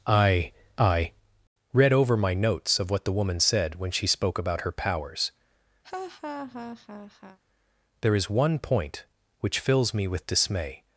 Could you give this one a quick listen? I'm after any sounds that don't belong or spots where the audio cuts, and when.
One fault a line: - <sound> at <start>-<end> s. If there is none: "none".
- laugh at 5.8-7.4 s